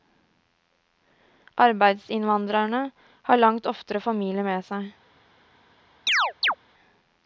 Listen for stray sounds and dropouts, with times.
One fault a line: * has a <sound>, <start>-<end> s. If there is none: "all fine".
* has a chirp, 6.1-6.5 s